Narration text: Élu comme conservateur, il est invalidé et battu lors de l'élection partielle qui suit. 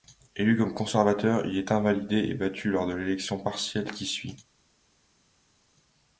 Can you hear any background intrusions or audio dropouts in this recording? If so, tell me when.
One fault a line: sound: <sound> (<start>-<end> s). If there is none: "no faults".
no faults